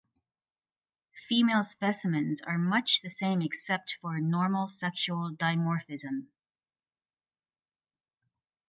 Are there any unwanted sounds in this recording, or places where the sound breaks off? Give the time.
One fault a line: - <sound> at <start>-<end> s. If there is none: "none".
none